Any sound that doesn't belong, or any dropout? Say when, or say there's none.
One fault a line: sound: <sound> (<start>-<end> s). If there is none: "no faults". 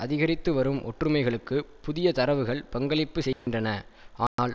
sound: dropout (3.3-3.5 s)
sound: dropout (4.3-4.4 s)